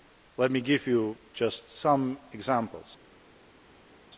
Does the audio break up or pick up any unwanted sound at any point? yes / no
no